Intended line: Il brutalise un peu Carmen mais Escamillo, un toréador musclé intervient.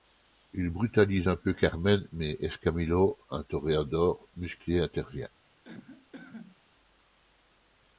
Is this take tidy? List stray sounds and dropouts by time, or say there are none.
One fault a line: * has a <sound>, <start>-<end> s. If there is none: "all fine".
* has a cough, 5.6-6.6 s